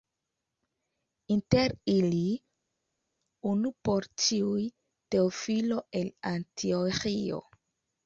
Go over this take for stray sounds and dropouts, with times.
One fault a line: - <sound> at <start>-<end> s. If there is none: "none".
none